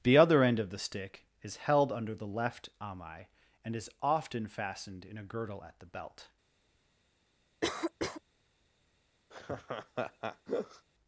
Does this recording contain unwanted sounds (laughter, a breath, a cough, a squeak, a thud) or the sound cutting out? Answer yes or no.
yes